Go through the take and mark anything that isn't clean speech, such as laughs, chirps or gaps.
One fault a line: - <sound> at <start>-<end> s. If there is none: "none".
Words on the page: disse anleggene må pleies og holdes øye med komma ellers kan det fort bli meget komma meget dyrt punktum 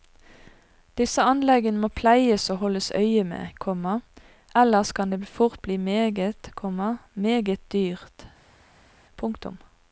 none